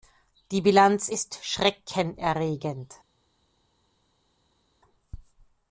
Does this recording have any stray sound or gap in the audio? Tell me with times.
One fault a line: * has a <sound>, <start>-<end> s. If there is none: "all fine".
all fine